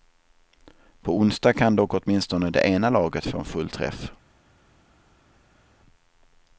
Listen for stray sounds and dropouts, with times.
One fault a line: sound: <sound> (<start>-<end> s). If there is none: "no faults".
no faults